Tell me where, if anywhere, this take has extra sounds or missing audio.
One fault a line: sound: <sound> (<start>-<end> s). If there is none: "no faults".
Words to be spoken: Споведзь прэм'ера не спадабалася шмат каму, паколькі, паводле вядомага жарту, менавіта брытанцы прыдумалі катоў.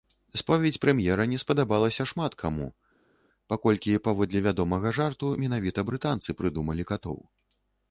no faults